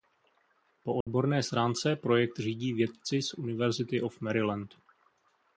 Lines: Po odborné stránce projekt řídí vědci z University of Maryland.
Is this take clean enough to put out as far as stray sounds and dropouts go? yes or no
no